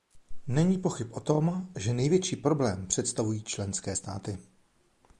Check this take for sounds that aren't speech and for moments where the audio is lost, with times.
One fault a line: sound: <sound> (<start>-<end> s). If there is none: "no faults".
no faults